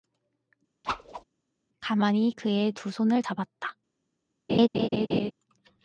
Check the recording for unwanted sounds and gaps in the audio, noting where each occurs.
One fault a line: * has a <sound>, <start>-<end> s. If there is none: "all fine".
* has a whoosh, 0.8-1.2 s
* has a laugh, 4.5-5.3 s